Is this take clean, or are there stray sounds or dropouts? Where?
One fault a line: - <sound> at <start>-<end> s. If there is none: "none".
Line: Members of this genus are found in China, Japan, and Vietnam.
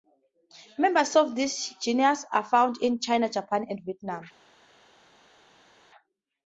none